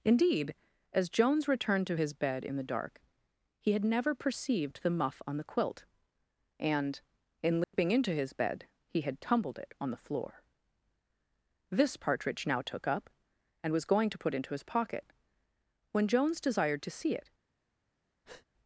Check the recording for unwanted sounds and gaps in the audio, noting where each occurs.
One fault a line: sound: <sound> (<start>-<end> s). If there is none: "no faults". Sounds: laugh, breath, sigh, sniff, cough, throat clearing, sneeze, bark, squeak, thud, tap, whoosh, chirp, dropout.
sound: dropout (7.6-7.7 s)
sound: breath (18.2-18.5 s)